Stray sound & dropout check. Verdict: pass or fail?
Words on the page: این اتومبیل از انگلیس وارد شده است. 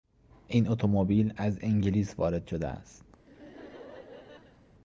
fail